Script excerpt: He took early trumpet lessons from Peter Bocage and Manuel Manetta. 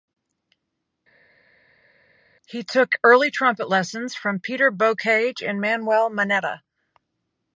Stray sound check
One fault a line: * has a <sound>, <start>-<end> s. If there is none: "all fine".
all fine